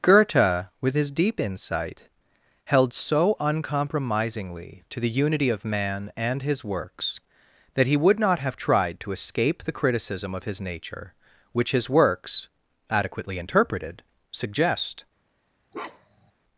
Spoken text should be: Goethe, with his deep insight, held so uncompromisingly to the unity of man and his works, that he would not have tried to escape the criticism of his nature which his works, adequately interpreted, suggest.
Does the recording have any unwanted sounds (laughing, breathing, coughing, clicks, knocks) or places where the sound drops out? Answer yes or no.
yes